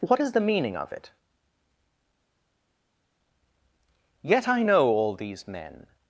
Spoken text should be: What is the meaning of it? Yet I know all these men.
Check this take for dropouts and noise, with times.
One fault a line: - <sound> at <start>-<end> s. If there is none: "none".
none